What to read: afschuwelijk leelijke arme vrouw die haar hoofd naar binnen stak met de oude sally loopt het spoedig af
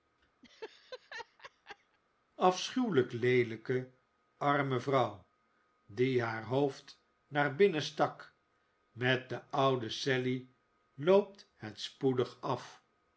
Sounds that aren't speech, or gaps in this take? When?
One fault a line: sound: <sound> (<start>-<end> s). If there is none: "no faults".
sound: laugh (0.4-2.0 s)